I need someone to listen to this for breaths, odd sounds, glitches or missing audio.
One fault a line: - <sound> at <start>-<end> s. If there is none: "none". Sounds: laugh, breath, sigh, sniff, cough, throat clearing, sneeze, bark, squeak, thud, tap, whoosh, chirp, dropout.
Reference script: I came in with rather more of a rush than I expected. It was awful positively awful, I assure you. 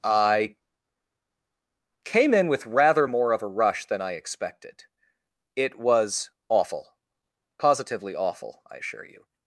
none